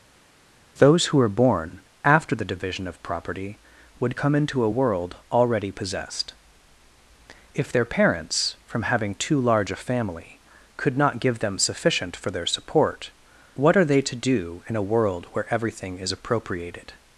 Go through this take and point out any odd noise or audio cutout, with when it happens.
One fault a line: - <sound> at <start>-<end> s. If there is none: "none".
none